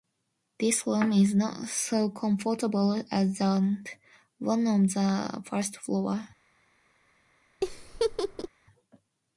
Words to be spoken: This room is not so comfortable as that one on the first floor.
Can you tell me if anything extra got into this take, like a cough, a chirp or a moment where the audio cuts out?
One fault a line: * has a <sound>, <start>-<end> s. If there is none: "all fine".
* has a laugh, 7.6-8.5 s